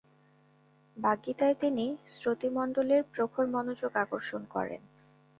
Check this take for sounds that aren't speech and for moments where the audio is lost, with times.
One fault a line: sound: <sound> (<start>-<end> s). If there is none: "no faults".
no faults